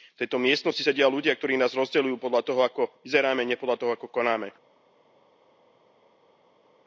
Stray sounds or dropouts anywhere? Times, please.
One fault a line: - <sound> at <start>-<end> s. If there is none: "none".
none